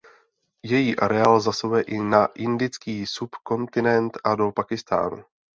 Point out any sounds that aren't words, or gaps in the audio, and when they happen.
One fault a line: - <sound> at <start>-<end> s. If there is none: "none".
none